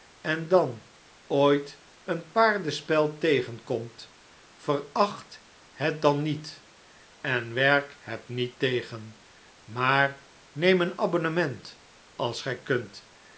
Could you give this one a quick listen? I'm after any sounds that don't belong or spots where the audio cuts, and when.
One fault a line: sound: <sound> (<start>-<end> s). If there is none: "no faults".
no faults